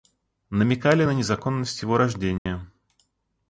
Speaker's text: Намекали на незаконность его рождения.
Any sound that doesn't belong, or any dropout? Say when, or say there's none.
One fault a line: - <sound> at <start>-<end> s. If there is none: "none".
- dropout at 2.4-2.5 s